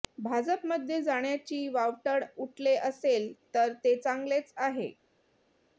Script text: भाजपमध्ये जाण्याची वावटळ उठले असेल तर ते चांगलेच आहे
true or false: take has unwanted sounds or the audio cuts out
false